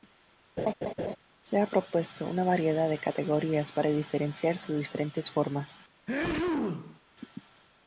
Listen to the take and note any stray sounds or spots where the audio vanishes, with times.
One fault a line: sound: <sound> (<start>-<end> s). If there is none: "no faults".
sound: laugh (0.6-1.2 s)
sound: sneeze (6.1-7.0 s)